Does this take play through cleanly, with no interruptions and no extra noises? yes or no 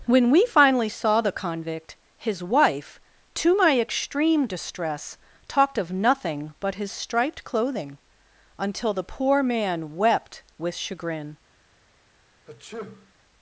no